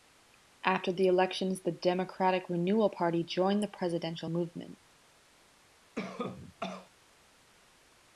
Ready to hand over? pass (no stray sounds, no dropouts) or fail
fail